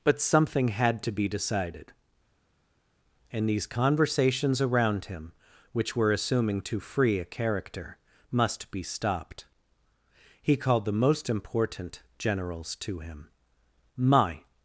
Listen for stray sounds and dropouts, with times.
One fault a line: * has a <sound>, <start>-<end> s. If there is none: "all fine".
all fine